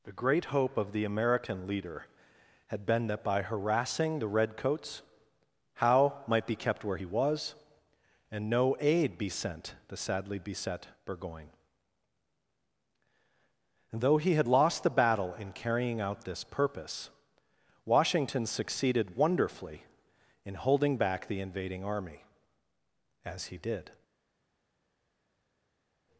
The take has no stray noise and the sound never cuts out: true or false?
true